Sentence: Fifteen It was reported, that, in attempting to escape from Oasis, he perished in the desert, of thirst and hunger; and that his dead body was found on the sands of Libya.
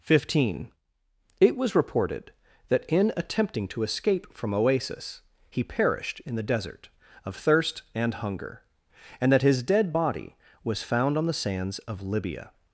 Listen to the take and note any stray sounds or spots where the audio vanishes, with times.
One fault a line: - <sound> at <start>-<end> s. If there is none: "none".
none